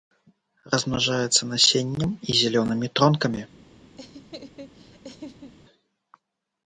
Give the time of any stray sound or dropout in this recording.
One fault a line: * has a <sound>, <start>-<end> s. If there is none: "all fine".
* has a laugh, 4.0-5.5 s